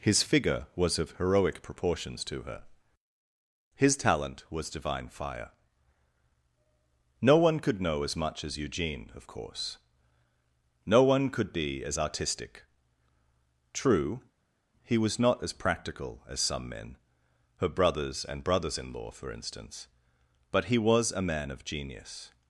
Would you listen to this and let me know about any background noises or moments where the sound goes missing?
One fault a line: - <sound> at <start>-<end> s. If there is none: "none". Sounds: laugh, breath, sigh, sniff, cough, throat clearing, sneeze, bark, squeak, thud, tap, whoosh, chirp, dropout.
none